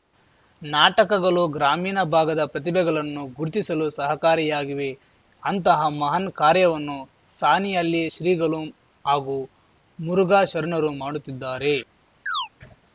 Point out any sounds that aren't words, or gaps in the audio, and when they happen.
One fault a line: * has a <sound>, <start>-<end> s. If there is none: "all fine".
* has a chirp, 12.3-12.5 s